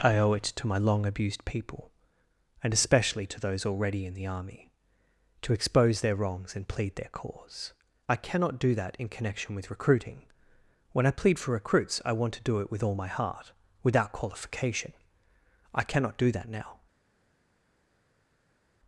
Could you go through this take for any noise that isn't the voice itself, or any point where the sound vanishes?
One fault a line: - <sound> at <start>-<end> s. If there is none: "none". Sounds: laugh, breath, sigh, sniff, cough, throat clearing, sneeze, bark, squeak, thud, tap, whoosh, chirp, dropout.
none